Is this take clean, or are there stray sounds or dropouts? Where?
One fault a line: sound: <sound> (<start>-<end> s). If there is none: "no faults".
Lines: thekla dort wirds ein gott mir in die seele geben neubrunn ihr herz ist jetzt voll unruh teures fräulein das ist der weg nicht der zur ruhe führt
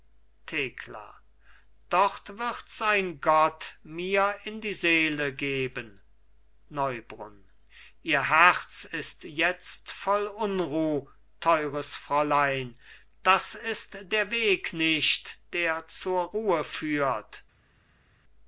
no faults